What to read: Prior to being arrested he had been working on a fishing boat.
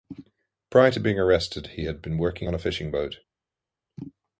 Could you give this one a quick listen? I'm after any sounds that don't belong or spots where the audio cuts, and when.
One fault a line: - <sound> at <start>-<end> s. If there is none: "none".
none